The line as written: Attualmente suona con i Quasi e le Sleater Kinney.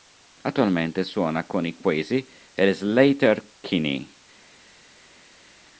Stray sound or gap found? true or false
false